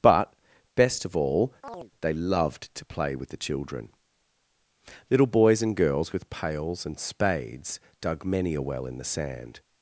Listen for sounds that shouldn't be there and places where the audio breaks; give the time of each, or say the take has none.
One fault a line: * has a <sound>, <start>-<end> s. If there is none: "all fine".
* has a chirp, 1.6-1.9 s